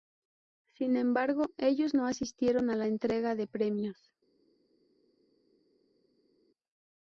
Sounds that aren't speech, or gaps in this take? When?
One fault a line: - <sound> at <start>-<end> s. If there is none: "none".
none